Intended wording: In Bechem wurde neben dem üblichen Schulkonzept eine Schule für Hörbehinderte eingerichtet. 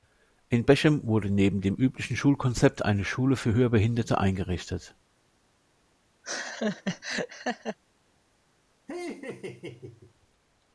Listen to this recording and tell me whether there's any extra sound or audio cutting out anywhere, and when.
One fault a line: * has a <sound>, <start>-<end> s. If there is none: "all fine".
* has a laugh, 6.2-7.8 s
* has a laugh, 8.9-10.1 s